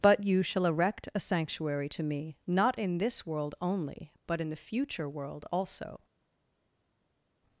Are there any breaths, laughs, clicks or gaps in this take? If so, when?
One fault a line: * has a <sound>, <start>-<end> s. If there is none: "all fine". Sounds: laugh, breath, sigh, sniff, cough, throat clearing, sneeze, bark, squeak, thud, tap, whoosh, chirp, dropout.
all fine